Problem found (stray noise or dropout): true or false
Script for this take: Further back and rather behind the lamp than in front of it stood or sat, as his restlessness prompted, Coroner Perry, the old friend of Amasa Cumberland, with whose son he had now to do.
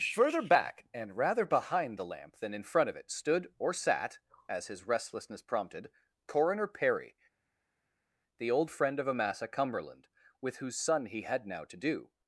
false